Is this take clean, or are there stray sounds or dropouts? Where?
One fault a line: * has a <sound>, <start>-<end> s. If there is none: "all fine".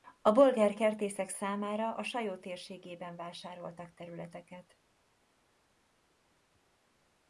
all fine